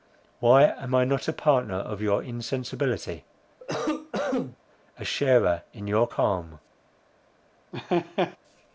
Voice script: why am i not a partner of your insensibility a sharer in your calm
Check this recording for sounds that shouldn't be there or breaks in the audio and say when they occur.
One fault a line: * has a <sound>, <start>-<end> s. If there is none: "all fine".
* has a cough, 3.6-4.6 s
* has a laugh, 7.7-8.4 s